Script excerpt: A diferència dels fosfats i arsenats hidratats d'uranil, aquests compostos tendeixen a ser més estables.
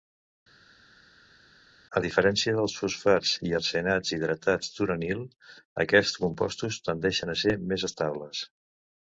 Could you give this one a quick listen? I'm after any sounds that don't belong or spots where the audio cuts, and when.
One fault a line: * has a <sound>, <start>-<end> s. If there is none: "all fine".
all fine